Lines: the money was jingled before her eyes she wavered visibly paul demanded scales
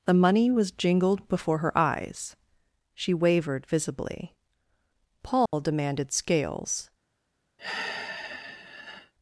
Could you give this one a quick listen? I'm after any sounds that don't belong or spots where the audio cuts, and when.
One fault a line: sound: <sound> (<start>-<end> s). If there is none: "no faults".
sound: dropout (5.5-5.5 s)
sound: sigh (7.6-9.1 s)